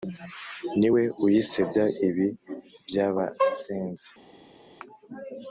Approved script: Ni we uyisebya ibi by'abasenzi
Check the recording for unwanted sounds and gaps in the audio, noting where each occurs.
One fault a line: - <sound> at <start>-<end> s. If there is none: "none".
none